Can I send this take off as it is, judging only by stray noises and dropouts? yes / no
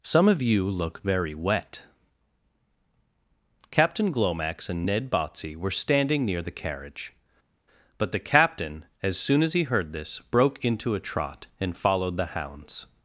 yes